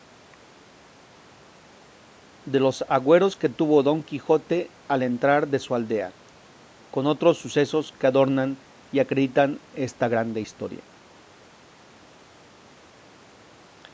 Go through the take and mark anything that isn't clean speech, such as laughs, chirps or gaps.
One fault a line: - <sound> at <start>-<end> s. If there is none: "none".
none